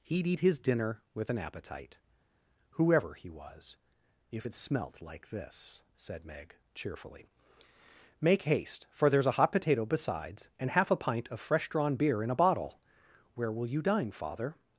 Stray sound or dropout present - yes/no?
no